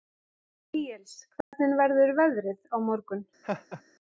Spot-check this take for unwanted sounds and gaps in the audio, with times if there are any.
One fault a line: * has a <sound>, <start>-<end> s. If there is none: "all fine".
* has a dropout, 1.4-1.5 s
* has a laugh, 3.4-3.8 s